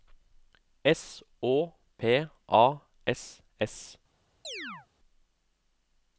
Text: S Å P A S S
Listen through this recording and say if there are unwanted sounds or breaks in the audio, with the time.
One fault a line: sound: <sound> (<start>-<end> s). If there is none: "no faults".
sound: chirp (4.4-4.9 s)